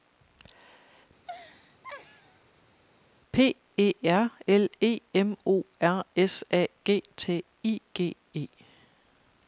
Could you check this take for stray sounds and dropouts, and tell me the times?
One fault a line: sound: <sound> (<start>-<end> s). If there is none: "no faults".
sound: laugh (1.2-2.7 s)